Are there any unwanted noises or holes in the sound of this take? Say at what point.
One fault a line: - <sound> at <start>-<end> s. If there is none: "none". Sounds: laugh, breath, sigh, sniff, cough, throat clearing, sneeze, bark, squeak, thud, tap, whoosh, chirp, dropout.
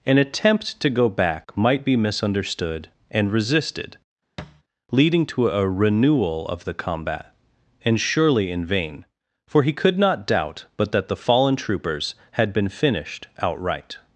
- thud at 4.4-4.6 s